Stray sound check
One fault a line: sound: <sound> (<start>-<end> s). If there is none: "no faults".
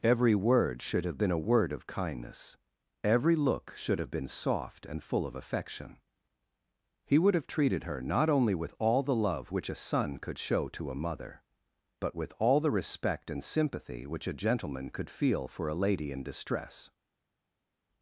no faults